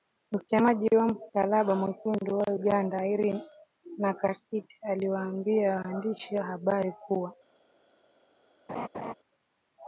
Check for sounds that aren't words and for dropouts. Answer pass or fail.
fail